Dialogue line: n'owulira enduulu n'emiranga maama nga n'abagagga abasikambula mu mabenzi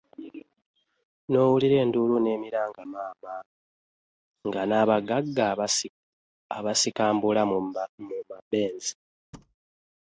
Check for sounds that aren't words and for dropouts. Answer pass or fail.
fail